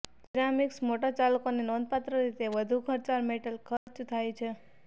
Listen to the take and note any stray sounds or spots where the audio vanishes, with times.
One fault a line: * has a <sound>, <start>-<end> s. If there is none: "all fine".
* has a dropout, 3.8-3.9 s